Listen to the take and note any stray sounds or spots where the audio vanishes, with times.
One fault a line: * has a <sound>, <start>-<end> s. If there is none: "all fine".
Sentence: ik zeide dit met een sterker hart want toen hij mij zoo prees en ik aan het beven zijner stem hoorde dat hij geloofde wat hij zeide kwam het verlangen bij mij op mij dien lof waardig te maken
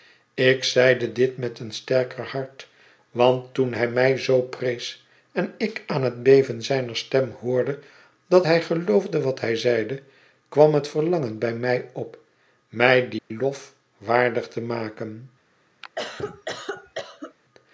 * has a dropout, 13.2-13.3 s
* has a cough, 15.8-17.3 s